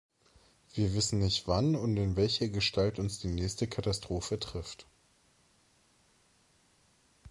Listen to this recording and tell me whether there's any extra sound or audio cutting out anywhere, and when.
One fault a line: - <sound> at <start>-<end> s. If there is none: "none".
none